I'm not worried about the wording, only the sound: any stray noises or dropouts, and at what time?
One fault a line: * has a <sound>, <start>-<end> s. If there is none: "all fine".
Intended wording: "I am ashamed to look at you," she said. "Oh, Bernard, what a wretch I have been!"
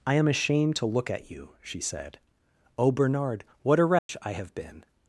* has a dropout, 4.0-4.1 s